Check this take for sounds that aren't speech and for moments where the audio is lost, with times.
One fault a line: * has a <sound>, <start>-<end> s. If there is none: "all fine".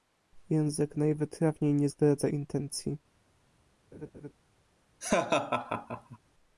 * has a laugh, 3.9-4.3 s
* has a laugh, 5.0-6.2 s